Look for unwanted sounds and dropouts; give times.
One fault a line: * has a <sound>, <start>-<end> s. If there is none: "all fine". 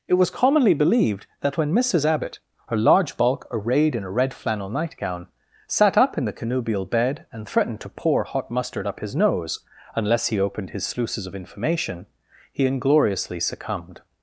all fine